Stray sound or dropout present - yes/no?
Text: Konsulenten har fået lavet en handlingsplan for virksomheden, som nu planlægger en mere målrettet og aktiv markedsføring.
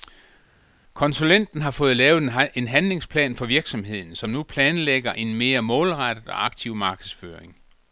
no